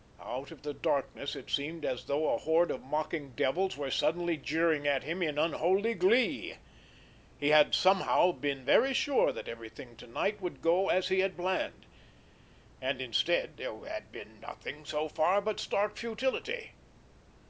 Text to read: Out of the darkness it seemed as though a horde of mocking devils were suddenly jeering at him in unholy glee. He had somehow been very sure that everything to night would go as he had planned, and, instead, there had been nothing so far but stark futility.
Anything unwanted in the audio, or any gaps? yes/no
no